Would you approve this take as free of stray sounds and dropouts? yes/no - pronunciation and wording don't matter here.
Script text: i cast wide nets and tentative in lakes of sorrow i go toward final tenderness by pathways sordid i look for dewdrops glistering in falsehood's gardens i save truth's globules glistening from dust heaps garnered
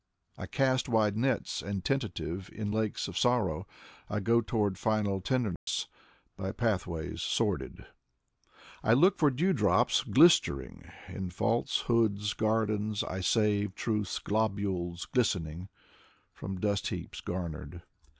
no